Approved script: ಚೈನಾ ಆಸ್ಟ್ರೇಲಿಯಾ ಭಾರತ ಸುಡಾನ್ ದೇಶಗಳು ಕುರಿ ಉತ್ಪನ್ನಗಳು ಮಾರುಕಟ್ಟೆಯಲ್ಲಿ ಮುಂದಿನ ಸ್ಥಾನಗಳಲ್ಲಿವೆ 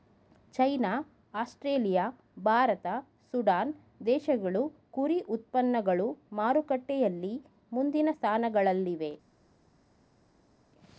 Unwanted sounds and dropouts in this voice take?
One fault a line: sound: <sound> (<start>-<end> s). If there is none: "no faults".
no faults